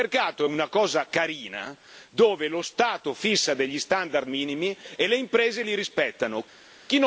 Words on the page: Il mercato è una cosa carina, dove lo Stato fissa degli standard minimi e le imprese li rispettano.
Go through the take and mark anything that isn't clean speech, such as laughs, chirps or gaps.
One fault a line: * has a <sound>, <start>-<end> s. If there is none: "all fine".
all fine